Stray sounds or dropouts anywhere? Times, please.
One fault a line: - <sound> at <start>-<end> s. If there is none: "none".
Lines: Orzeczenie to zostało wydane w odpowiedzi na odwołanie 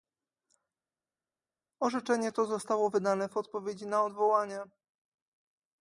none